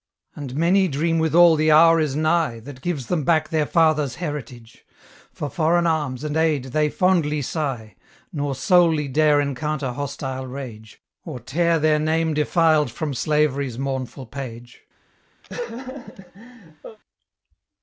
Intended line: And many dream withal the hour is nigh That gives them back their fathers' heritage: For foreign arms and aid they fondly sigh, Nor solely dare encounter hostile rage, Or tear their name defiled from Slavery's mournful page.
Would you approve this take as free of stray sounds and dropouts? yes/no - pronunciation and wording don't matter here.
no